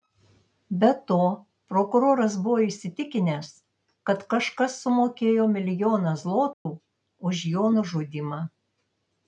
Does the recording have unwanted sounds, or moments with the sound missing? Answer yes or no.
yes